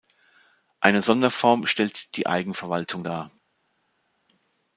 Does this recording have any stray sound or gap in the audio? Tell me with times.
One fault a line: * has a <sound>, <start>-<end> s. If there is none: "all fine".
all fine